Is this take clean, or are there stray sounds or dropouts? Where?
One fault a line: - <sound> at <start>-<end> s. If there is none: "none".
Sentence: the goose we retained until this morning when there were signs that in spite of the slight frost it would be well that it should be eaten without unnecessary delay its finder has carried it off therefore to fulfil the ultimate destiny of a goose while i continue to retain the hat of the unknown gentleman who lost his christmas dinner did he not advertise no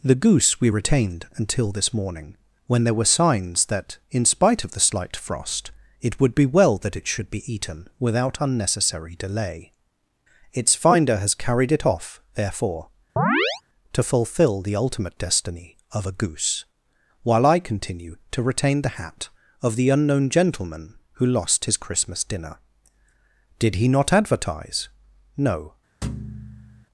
- chirp at 13.2-13.6 s
- thud at 26.0-26.9 s